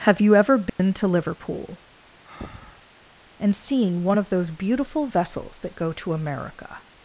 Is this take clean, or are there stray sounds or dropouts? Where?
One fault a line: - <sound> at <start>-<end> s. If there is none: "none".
- dropout at 0.7-0.8 s
- breath at 2.2-2.9 s